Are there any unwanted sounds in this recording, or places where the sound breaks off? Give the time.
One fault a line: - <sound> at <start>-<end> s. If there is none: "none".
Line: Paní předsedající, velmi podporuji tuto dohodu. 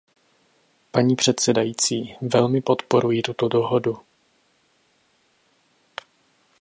none